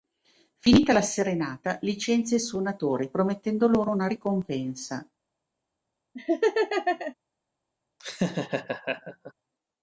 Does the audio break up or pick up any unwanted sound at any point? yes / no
yes